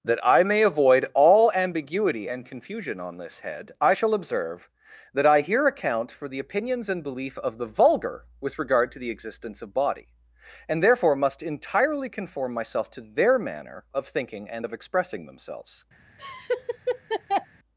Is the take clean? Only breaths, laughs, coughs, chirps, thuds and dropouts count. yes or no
no